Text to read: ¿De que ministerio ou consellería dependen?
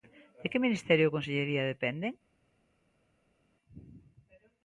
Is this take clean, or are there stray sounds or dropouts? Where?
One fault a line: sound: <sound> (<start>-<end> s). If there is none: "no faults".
no faults